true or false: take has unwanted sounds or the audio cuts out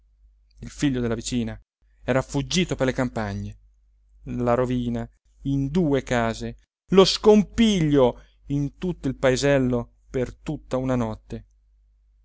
false